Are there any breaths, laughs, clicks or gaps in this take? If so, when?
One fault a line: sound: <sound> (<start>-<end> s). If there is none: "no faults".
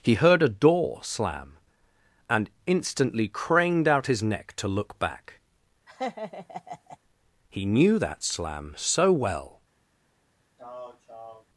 sound: laugh (5.9-7.0 s)
sound: throat clearing (10.6-11.5 s)